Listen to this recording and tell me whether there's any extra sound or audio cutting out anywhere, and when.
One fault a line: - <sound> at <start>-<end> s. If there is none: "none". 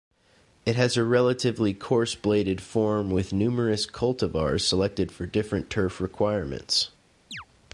- chirp at 7.3-7.5 s